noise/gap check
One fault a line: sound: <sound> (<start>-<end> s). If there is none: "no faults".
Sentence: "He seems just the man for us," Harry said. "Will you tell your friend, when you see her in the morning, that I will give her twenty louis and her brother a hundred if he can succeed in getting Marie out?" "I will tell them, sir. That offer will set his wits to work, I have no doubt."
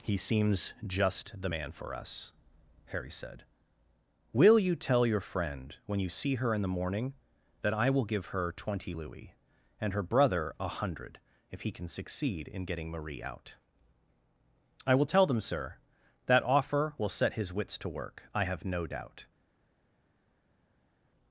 no faults